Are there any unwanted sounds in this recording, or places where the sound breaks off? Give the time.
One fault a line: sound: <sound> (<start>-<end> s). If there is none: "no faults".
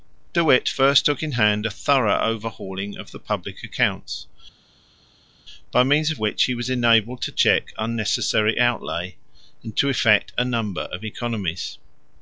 no faults